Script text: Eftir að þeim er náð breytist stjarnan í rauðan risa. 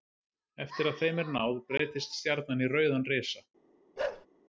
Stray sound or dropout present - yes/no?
yes